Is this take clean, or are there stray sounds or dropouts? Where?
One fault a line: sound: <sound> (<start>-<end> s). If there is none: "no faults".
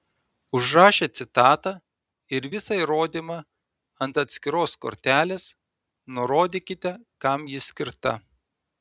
no faults